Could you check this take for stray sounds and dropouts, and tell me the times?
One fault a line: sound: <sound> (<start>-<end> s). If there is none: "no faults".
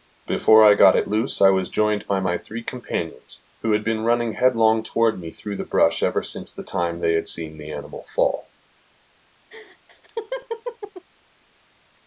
sound: laugh (9.5-11.0 s)